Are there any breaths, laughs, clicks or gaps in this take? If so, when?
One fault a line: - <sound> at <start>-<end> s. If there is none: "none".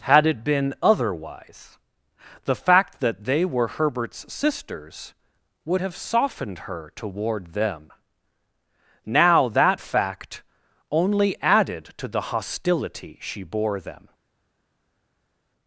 none